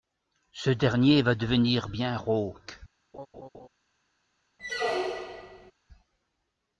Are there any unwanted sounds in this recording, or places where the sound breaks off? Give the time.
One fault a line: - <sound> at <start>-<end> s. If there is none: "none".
- laugh at 3.1-3.7 s
- squeak at 4.6-5.7 s